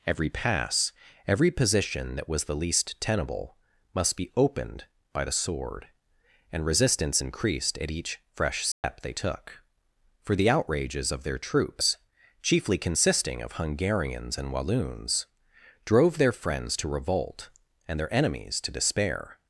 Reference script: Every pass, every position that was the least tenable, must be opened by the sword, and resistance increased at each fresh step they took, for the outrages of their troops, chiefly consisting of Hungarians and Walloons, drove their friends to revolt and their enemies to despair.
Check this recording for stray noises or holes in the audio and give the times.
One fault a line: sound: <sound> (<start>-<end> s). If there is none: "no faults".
sound: dropout (8.7-8.8 s)